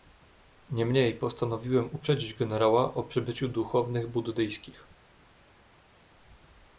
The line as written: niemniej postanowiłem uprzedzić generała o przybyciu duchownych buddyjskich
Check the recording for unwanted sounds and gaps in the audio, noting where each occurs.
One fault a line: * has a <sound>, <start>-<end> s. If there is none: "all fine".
all fine